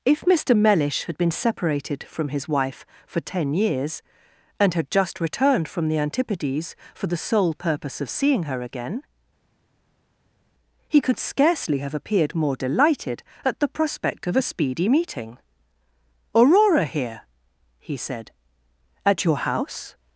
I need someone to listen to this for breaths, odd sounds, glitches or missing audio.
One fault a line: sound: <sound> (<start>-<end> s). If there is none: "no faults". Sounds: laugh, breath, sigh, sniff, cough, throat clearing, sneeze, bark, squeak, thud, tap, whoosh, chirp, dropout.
no faults